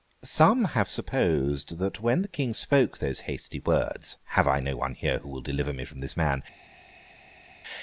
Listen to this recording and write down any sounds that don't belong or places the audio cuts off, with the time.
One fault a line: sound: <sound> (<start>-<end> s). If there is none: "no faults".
no faults